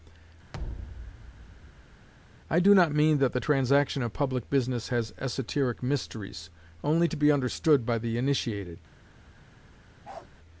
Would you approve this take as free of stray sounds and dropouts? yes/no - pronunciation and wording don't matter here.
no